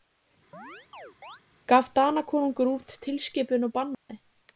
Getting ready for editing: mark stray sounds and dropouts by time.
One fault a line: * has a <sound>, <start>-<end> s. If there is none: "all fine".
* has a chirp, 0.5-1.4 s
* has a dropout, 3.9-4.1 s